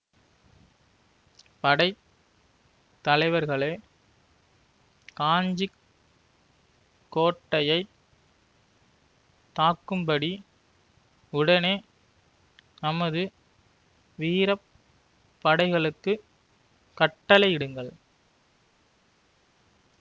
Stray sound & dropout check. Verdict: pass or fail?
pass